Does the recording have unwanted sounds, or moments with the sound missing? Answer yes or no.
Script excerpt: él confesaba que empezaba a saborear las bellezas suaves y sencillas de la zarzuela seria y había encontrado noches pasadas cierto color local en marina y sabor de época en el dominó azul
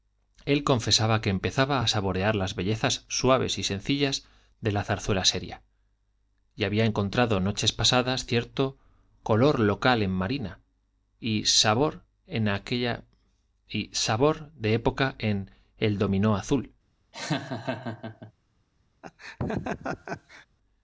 yes